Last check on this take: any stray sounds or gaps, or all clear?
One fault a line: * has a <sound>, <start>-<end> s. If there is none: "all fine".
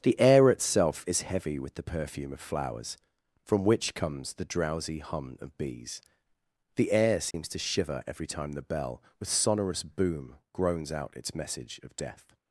* has a dropout, 7.3-7.3 s